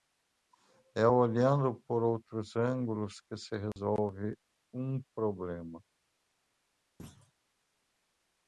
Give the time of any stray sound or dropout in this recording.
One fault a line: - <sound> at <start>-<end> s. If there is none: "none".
- dropout at 3.7-3.8 s
- thud at 7.0-7.3 s